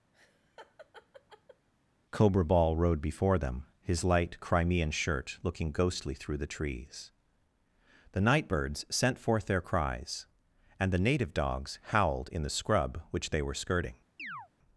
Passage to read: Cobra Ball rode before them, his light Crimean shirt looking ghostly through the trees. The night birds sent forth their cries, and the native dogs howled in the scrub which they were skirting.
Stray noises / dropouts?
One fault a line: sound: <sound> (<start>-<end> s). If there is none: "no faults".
sound: laugh (0.1-1.7 s)
sound: chirp (14.2-14.5 s)